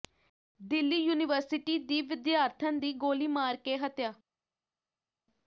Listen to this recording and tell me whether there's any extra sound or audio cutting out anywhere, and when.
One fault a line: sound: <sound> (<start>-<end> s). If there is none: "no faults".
no faults